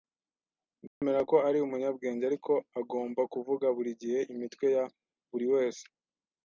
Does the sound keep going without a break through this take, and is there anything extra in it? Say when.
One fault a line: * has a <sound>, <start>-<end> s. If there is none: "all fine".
* has a dropout, 0.9-1.0 s